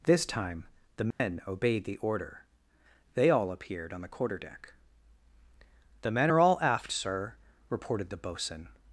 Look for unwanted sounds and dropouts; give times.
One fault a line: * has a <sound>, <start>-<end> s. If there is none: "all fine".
* has a dropout, 1.1-1.2 s